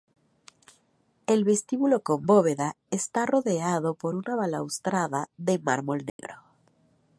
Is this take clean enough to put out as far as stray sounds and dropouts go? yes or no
no